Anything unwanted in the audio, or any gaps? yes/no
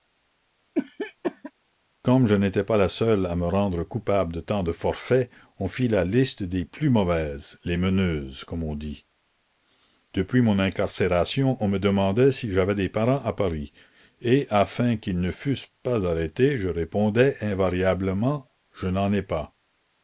yes